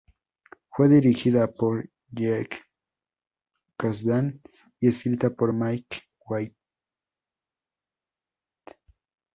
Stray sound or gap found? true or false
false